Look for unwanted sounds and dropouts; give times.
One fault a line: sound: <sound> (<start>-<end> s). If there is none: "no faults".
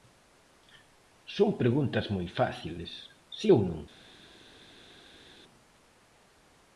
no faults